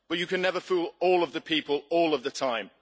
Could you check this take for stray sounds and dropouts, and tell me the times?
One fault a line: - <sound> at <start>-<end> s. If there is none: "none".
none